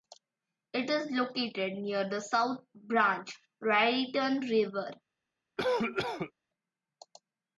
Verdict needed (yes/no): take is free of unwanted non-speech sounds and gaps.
no